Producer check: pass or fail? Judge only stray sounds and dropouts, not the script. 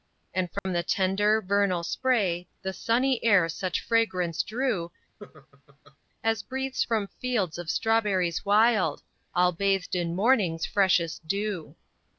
fail